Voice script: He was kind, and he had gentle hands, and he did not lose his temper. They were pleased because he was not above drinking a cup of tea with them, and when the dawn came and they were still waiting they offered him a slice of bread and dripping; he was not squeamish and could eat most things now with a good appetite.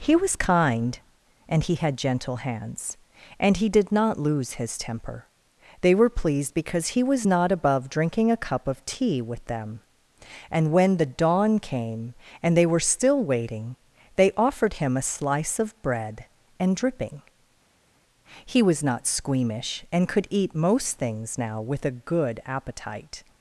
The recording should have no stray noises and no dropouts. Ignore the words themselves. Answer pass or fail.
pass